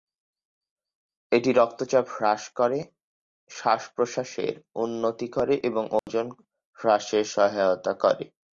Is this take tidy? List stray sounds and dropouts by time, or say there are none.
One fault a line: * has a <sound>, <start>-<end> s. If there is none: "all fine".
* has a dropout, 6.0-6.1 s